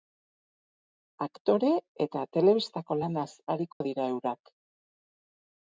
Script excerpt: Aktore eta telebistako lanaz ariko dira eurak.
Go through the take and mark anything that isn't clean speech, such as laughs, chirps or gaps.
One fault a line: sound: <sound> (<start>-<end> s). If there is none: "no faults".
sound: dropout (3.7-3.8 s)